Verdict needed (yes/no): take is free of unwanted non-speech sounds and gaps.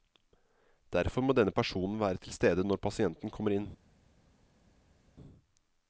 yes